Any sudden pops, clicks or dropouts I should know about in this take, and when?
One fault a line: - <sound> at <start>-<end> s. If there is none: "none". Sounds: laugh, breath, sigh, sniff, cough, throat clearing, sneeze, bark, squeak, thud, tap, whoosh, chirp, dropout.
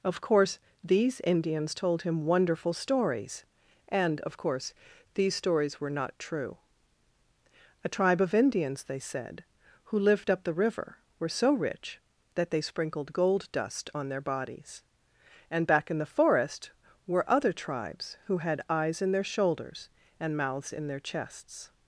none